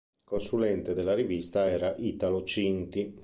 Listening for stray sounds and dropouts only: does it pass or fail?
pass